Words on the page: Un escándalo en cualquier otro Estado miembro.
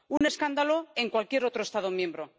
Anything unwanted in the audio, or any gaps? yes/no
yes